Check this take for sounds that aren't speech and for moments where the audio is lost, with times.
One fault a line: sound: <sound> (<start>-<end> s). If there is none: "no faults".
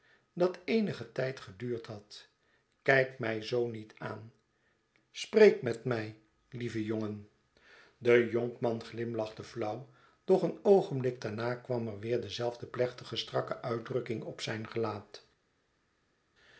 no faults